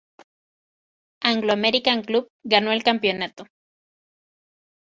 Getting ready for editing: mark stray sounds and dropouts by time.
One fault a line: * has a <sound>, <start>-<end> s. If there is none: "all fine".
all fine